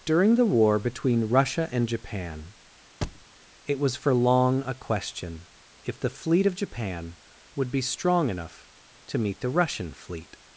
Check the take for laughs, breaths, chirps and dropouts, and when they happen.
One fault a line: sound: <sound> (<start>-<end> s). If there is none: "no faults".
sound: thud (3.0-3.3 s)